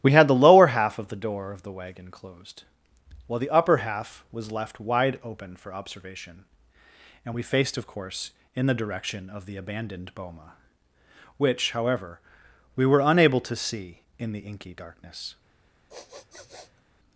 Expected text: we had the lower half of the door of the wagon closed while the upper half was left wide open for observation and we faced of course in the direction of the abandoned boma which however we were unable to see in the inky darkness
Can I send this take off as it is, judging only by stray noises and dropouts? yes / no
no